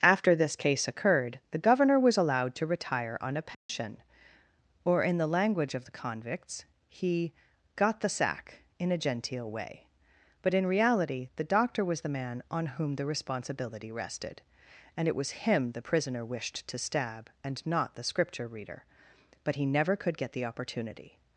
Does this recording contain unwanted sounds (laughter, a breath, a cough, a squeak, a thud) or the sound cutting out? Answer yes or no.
yes